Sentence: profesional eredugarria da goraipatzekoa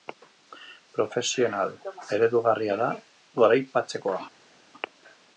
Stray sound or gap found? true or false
false